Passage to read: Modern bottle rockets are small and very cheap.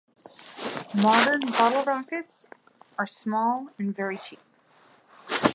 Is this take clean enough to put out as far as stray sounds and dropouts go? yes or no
yes